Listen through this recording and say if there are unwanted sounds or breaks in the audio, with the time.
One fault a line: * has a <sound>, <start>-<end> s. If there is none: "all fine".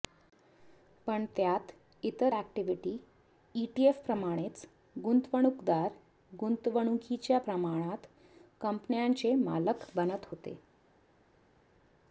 all fine